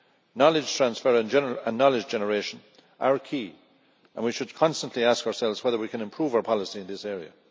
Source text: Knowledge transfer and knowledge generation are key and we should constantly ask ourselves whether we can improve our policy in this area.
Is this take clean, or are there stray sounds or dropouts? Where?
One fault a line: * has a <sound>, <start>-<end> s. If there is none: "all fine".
all fine